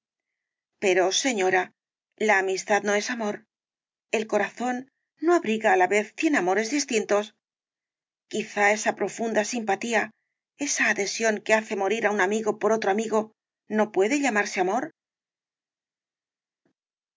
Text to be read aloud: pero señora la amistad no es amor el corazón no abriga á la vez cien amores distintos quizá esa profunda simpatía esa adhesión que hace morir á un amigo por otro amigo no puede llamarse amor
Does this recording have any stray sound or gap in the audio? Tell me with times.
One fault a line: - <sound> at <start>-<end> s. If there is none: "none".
none